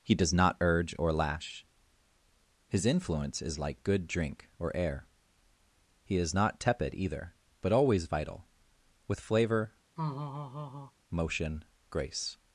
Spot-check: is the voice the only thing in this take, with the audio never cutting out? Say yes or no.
no